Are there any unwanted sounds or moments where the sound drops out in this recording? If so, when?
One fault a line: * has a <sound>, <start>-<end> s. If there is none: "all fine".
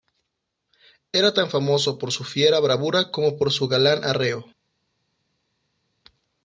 all fine